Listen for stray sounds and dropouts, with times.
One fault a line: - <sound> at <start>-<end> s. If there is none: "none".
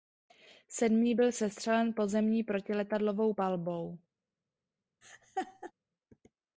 - laugh at 5.0-5.7 s